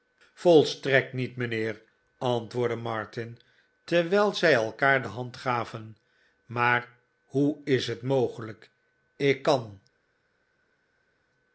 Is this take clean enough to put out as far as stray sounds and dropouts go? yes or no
yes